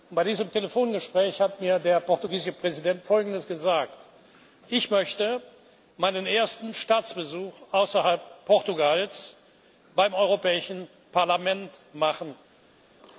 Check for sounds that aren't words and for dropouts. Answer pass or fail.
pass